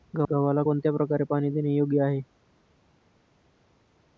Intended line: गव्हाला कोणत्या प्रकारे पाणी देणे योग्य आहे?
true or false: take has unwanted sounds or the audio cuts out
false